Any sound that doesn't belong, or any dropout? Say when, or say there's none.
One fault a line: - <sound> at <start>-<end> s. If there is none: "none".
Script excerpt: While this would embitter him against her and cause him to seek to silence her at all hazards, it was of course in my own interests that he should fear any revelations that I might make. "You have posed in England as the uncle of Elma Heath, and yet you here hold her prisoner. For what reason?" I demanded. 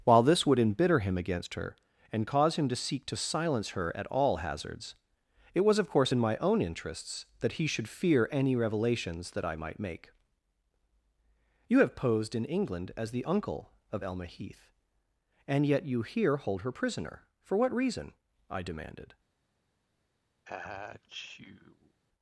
- sneeze at 20.4-22.0 s